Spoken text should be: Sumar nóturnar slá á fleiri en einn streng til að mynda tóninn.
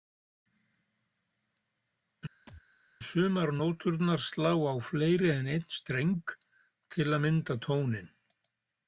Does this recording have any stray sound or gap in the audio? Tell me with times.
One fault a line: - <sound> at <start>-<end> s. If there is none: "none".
- thud at 2.5-2.6 s